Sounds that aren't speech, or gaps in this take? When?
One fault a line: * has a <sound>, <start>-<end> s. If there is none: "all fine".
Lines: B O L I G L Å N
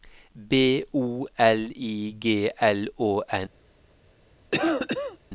* has a cough, 4.5-5.2 s